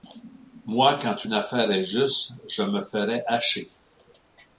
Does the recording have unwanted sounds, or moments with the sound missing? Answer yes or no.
no